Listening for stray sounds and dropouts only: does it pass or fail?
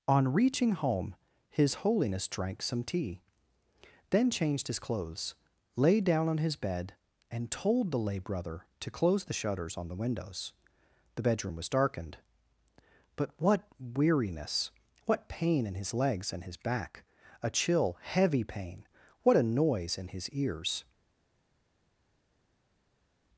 pass